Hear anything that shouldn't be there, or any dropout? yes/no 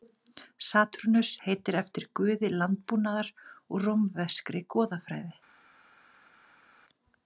no